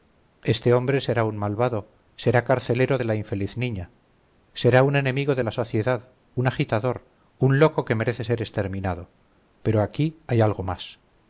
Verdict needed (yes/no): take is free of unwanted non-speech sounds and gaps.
yes